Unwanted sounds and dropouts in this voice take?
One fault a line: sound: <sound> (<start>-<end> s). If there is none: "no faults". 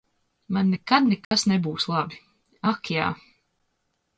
sound: dropout (1.2-1.3 s)